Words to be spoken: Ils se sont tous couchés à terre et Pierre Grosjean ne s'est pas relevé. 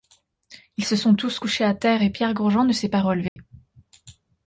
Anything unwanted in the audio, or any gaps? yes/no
yes